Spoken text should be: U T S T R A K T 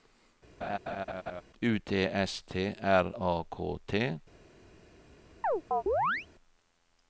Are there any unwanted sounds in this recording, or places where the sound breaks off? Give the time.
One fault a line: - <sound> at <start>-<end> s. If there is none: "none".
- laugh at 0.6-1.4 s
- chirp at 5.4-6.3 s